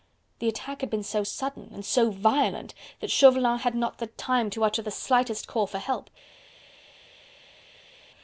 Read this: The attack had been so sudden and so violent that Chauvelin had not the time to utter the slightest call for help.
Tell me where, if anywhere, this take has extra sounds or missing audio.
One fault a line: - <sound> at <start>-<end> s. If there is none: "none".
none